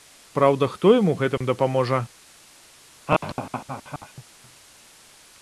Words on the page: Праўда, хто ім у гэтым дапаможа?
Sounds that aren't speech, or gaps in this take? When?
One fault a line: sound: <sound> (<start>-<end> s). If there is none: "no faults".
sound: dropout (1.4-1.4 s)
sound: laugh (3.1-4.2 s)